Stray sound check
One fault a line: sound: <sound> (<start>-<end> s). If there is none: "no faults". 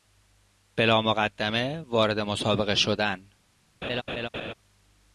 sound: laugh (3.8-4.5 s)